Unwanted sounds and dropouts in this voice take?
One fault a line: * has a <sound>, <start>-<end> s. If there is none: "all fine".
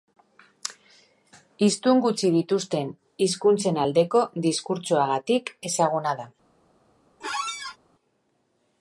* has a squeak, 7.2-7.8 s